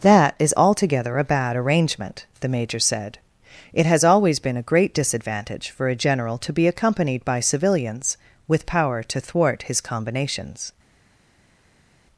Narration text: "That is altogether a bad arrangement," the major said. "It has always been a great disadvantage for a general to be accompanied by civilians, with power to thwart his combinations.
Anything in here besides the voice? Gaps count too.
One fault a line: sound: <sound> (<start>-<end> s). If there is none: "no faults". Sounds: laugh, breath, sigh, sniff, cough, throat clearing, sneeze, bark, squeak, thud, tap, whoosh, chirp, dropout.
no faults